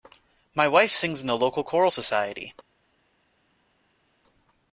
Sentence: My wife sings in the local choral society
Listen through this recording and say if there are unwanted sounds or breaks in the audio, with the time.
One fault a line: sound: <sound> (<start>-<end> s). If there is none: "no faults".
no faults